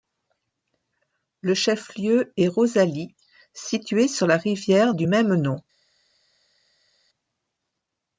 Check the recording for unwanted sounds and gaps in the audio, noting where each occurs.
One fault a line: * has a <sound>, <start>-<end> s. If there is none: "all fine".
all fine